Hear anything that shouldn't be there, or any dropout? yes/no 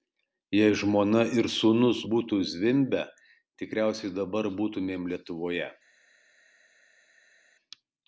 no